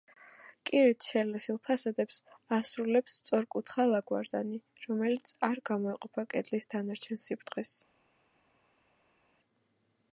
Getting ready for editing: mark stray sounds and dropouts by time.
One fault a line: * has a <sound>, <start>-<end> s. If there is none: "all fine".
all fine